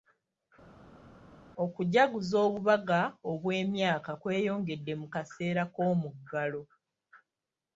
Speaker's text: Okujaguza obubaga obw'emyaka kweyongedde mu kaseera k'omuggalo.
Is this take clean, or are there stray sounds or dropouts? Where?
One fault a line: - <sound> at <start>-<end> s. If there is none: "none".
none